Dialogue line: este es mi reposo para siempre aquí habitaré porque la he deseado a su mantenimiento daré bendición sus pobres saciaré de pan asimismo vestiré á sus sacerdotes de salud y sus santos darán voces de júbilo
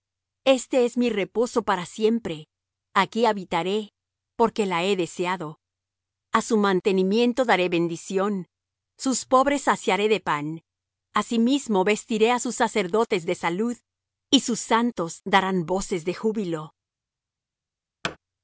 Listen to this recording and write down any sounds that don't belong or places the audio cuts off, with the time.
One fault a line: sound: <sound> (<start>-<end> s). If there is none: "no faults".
sound: thud (18.0-18.2 s)